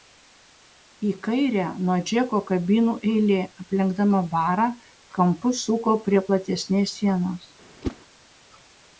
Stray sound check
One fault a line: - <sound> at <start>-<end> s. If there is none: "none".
- whoosh at 7.8-8.0 s